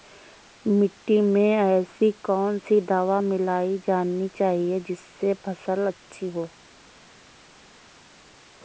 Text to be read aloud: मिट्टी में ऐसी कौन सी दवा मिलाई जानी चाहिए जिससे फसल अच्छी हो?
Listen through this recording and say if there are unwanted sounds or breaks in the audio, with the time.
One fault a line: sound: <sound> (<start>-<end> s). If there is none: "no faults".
no faults